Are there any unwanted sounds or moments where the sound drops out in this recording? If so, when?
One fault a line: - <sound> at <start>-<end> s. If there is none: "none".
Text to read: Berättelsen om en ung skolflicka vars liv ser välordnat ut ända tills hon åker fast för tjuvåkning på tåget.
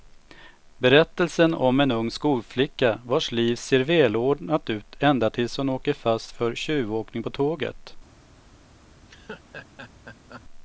- laugh at 9.0-10.4 s